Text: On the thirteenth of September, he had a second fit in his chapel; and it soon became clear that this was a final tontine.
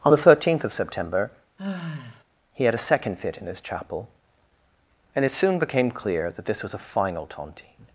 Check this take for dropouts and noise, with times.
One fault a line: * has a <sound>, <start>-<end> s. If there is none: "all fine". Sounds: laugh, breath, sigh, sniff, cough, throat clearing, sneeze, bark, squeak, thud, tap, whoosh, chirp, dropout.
* has a sigh, 1.6-2.2 s